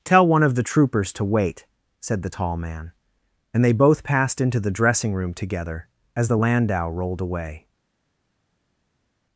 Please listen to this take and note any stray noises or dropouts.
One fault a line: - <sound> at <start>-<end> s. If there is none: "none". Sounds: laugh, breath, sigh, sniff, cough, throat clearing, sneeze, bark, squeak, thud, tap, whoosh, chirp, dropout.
none